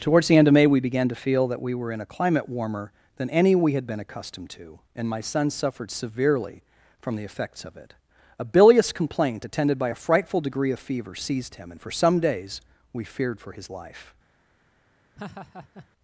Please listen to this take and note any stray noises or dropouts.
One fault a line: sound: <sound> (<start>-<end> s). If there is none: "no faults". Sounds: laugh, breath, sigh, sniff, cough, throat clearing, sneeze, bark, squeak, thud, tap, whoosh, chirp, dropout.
sound: laugh (15.2-15.9 s)